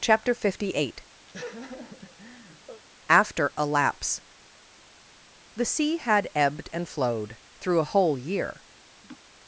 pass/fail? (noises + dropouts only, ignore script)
fail